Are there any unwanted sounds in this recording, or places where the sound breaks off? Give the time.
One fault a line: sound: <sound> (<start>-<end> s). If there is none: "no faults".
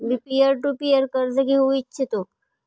no faults